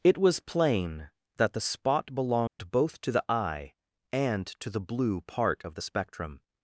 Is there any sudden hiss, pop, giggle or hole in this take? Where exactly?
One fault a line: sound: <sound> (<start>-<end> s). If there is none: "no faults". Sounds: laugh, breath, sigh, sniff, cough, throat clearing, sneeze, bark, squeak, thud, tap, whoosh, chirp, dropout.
sound: dropout (2.5-2.6 s)